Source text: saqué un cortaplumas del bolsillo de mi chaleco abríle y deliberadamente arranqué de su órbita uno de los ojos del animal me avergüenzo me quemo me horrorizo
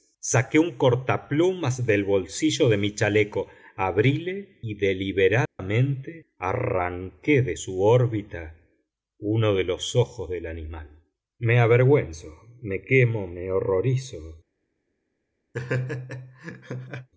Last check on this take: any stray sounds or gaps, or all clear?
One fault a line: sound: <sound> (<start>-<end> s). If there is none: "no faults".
sound: dropout (5.5-5.6 s)
sound: laugh (15.5-17.1 s)